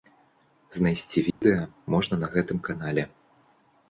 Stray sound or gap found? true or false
true